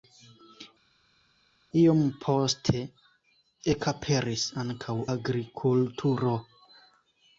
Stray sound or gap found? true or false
false